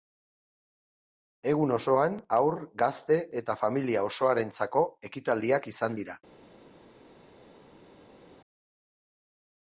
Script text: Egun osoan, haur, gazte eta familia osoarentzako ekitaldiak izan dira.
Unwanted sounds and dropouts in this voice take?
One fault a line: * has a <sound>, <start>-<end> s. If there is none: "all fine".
all fine